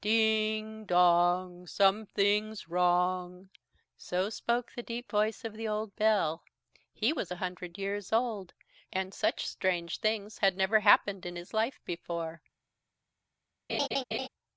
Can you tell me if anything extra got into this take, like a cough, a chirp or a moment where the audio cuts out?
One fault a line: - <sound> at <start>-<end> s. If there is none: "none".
- laugh at 13.7-14.3 s